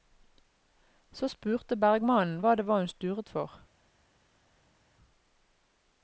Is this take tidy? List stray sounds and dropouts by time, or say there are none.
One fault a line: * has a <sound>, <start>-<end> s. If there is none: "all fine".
all fine